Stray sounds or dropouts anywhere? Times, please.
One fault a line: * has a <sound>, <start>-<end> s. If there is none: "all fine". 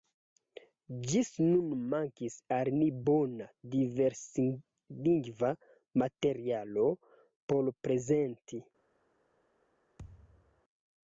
* has a thud, 10.0-10.6 s